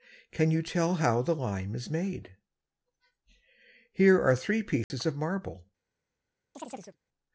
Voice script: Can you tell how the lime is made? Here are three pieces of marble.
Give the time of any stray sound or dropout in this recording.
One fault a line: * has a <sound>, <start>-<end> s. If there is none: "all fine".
* has a dropout, 4.8-4.9 s
* has a chirp, 6.5-7.0 s